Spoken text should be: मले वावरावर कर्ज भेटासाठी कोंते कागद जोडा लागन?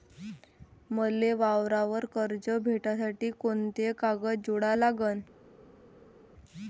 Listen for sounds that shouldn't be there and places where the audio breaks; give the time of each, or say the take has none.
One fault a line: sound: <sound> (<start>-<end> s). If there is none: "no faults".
no faults